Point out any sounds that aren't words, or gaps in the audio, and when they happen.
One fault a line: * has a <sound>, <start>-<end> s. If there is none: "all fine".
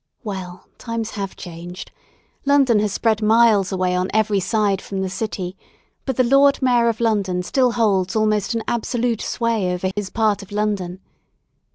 * has a dropout, 9.9-10.0 s